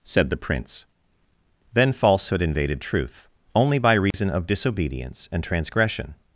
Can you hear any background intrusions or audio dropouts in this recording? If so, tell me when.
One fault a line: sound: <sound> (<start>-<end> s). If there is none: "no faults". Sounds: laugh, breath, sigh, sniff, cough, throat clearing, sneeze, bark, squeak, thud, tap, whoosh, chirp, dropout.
sound: dropout (4.1-4.1 s)